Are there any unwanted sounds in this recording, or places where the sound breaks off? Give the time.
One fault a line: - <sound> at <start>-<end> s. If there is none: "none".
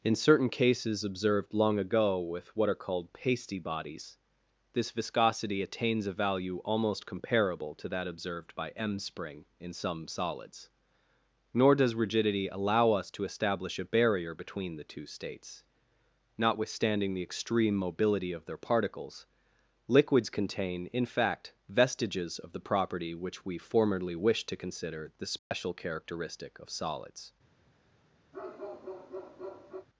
- dropout at 25.4-25.5 s
- bark at 28.3-29.9 s